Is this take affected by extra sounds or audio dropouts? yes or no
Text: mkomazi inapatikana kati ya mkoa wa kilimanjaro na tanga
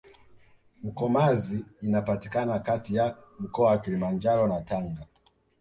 no